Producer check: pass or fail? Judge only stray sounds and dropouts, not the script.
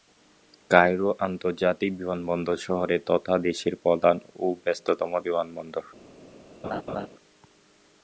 fail